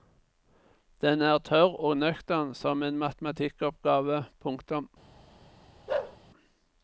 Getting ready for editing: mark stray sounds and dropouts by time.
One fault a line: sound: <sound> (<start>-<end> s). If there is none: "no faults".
sound: bark (5.9-6.2 s)